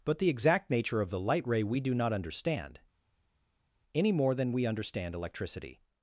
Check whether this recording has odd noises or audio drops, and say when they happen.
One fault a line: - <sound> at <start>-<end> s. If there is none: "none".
none